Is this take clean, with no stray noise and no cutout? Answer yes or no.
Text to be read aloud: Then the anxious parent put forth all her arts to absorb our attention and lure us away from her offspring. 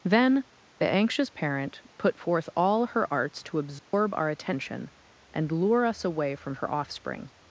no